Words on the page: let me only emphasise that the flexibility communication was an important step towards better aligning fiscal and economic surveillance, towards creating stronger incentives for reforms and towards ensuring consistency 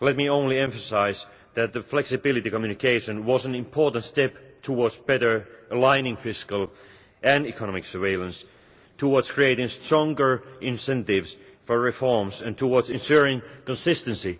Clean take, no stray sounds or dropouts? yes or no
yes